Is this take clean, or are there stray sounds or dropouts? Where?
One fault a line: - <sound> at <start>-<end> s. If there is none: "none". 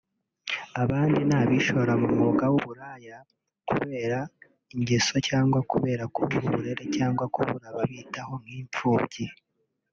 none